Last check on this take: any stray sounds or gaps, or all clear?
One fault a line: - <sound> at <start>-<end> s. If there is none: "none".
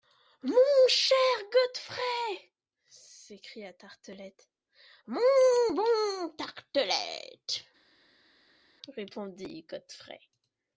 none